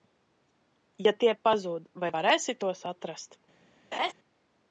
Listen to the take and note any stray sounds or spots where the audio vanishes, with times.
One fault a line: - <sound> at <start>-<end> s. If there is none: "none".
- laugh at 3.9-4.1 s